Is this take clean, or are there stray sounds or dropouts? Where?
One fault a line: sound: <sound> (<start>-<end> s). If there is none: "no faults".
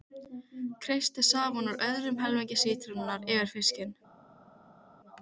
no faults